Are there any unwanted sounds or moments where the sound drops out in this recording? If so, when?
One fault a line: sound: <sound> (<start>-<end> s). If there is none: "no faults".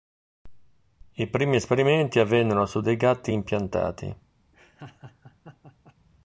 sound: laugh (4.5-6.0 s)